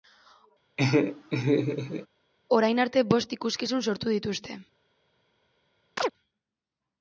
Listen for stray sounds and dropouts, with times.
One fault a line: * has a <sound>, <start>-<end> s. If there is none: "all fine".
* has a laugh, 0.8-2.1 s
* has a chirp, 6.0-6.1 s